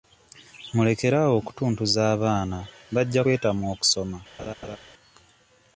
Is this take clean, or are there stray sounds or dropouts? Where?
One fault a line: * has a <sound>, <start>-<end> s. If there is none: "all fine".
* has a laugh, 4.4-4.8 s